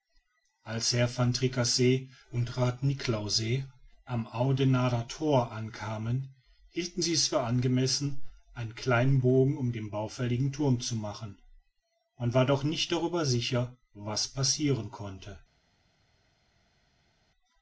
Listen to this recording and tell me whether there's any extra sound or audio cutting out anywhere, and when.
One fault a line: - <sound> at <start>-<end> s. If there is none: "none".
none